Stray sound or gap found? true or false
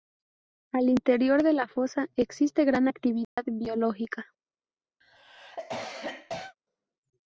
true